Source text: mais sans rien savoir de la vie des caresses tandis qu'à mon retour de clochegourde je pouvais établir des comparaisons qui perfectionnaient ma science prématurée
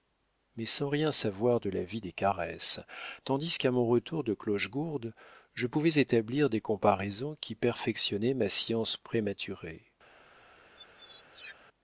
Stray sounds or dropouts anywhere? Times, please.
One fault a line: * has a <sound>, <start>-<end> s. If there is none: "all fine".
* has a squeak, 10.7-11.6 s